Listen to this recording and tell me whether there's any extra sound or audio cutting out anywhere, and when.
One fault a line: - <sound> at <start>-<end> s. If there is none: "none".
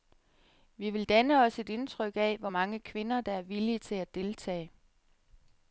none